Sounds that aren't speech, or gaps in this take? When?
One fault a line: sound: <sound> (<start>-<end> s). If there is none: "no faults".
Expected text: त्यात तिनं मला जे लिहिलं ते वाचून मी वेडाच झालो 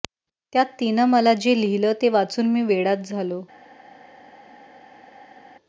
no faults